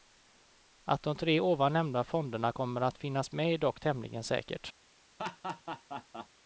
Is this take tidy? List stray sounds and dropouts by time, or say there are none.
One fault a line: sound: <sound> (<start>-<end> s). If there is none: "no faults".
sound: laugh (5.2-6.3 s)